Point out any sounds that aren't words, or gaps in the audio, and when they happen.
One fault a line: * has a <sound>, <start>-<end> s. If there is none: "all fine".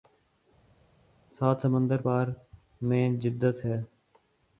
all fine